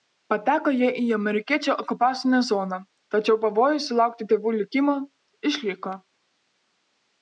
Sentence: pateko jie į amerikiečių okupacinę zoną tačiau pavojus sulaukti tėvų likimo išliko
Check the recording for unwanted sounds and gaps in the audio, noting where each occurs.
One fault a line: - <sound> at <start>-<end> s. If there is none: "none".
none